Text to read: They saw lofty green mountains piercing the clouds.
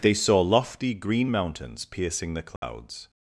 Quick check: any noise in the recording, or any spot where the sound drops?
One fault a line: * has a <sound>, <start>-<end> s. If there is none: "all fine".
* has a dropout, 2.6-2.6 s